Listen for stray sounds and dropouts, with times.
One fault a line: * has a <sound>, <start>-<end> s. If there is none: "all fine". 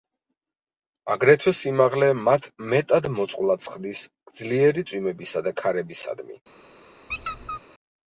* has a squeak, 7.1-7.6 s